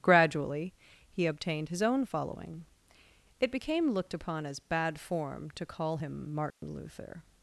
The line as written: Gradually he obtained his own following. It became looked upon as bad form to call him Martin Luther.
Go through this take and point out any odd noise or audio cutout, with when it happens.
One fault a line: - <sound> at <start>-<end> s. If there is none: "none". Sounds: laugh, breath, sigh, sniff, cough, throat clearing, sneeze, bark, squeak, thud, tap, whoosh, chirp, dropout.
- dropout at 6.5-6.6 s